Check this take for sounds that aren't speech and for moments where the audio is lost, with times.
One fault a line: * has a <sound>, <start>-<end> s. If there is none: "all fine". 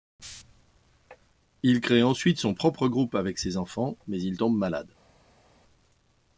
all fine